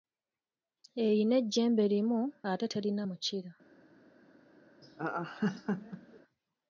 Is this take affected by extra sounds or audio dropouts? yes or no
yes